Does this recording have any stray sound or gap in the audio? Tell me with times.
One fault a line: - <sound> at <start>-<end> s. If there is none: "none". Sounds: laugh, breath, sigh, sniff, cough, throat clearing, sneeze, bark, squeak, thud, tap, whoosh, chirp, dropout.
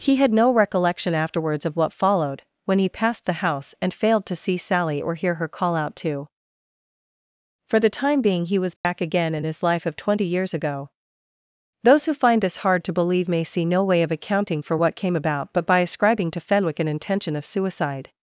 - dropout at 8.8-8.8 s